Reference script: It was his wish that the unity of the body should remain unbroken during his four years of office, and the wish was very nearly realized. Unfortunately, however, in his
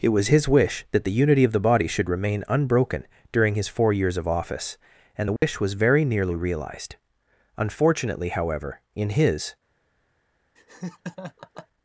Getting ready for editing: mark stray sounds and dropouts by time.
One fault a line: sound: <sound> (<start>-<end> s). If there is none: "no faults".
sound: dropout (5.4-5.4 s)
sound: laugh (10.6-11.7 s)